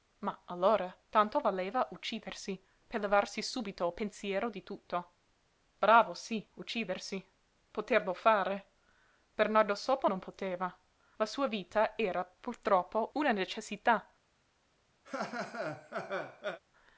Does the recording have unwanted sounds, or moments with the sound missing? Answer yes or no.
yes